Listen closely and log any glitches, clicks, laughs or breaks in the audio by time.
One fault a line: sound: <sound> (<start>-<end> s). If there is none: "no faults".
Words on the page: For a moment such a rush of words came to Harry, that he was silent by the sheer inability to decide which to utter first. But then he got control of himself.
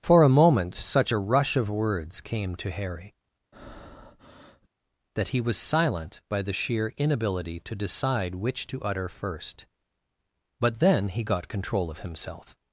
sound: breath (3.5-4.7 s)